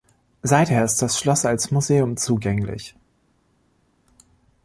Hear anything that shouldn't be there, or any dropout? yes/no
no